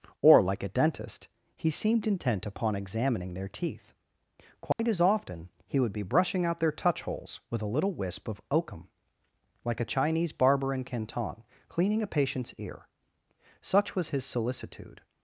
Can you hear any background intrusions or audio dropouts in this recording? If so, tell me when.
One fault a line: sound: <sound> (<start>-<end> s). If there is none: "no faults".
sound: dropout (4.7-4.8 s)